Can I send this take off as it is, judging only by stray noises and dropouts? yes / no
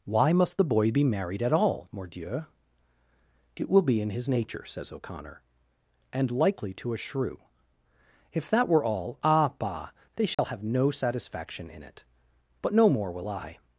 no